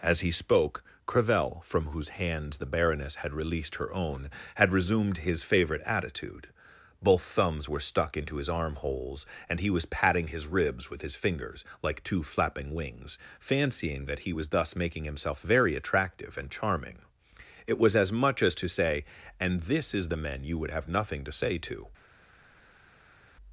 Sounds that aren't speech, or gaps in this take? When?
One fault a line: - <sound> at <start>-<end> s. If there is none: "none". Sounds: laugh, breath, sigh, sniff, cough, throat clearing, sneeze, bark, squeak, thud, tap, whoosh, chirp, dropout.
none